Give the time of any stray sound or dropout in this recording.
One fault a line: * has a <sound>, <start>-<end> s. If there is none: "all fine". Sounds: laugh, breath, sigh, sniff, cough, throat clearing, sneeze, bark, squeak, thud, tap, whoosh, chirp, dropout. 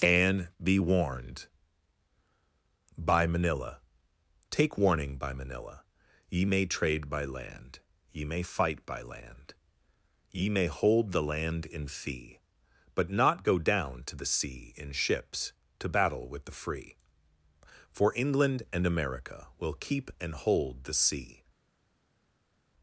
all fine